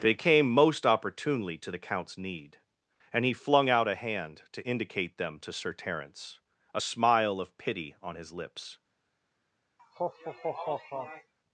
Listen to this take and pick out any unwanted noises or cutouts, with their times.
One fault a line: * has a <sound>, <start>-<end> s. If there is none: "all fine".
* has a laugh, 9.8-11.3 s